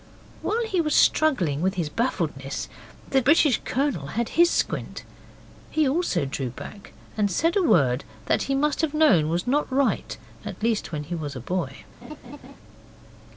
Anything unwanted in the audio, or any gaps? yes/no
yes